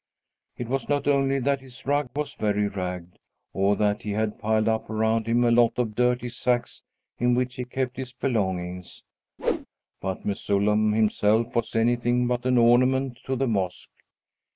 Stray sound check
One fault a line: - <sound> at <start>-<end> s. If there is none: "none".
- whoosh at 9.4-9.7 s